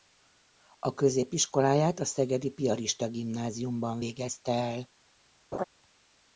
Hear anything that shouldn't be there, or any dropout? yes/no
yes